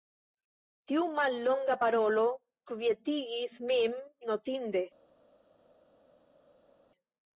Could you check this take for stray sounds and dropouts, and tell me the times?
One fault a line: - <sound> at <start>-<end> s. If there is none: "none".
none